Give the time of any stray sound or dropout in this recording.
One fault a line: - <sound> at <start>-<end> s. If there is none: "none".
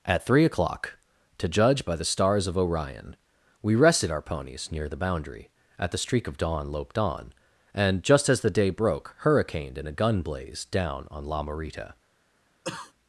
- cough at 12.6-12.9 s